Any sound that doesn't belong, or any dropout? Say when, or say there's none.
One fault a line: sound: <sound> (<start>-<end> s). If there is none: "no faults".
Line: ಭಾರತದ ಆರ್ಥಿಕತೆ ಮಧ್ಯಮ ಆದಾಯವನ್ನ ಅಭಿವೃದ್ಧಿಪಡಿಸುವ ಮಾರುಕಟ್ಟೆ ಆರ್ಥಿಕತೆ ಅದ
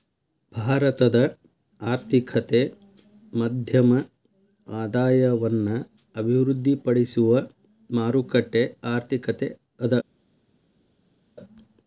no faults